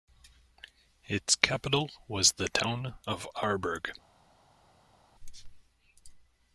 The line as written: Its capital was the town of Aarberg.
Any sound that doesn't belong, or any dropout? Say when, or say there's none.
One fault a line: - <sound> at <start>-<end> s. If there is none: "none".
none